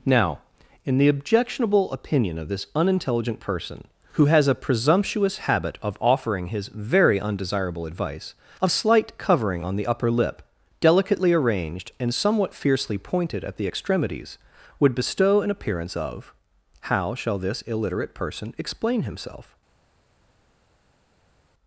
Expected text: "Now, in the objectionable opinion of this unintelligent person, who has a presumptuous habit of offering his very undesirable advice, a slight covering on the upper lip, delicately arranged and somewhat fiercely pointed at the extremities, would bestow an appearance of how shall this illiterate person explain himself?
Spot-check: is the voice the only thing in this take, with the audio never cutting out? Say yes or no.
yes